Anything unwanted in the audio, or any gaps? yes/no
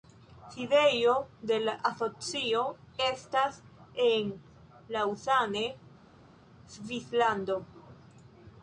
no